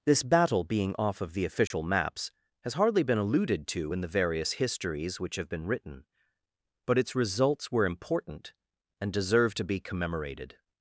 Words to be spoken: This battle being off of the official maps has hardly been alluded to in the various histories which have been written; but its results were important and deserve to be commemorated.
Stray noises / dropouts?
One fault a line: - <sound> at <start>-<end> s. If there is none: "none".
- dropout at 1.7-1.7 s